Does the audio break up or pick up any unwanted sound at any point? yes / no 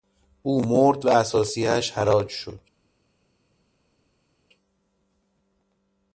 no